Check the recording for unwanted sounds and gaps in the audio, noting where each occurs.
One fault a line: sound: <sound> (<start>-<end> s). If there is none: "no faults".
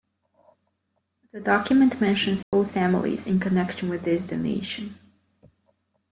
sound: dropout (2.4-2.5 s)